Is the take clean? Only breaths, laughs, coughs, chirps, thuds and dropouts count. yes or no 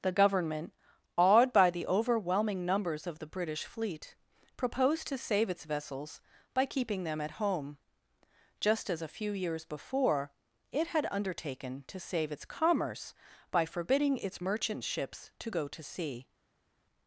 yes